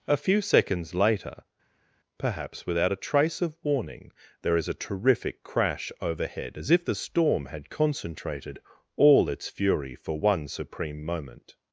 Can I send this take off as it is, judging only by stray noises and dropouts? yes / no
yes